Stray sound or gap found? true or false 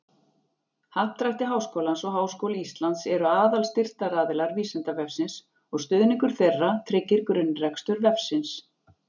false